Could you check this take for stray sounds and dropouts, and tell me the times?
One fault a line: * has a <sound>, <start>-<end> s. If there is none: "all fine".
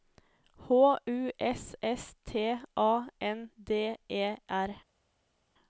all fine